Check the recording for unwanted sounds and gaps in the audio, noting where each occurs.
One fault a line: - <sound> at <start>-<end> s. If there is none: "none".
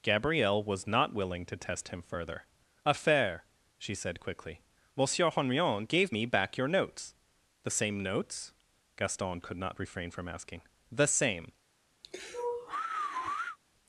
- sigh at 12.0-13.6 s